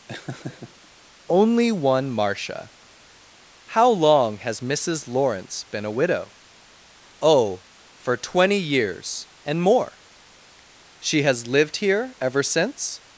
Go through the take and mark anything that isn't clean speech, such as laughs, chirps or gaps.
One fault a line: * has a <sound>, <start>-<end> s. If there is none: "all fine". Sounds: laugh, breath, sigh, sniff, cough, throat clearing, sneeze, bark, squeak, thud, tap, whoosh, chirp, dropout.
* has a laugh, 0.1-0.9 s